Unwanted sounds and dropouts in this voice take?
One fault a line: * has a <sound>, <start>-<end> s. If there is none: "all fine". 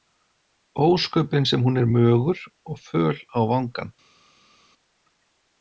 all fine